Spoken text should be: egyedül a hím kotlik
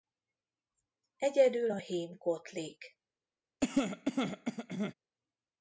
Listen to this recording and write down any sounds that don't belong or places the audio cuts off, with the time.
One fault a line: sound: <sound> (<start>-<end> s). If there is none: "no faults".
sound: cough (3.6-4.9 s)